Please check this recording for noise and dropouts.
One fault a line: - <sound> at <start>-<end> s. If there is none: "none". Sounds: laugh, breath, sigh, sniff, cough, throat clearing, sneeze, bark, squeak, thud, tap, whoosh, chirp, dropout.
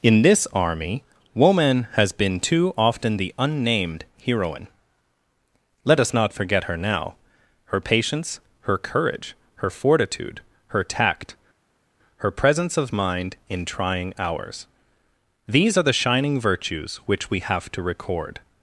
none